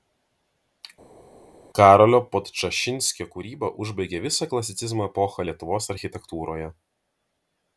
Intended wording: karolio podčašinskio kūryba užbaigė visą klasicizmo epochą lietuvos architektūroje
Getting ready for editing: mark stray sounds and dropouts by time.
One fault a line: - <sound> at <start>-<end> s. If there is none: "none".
none